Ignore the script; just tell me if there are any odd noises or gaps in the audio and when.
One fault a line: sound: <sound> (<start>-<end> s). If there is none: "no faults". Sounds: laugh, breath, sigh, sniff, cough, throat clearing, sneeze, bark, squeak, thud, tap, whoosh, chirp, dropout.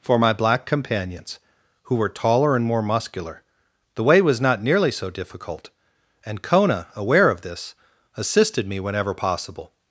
no faults